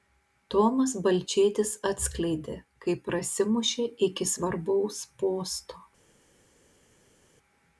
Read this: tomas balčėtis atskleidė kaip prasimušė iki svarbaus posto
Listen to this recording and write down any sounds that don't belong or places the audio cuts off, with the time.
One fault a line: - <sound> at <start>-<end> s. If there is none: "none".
none